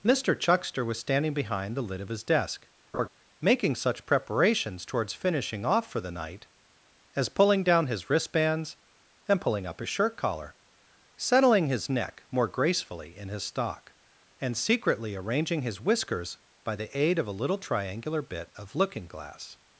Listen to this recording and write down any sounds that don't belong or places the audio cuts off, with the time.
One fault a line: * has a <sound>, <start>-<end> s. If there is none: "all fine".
* has a laugh, 2.9-3.1 s